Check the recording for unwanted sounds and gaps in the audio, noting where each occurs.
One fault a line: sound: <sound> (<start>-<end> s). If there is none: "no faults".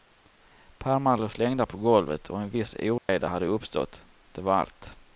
sound: dropout (3.0-3.1 s)